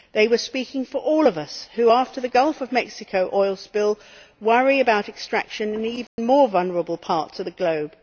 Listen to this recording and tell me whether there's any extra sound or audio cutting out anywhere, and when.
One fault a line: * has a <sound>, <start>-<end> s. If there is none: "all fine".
* has a dropout, 6.1-6.2 s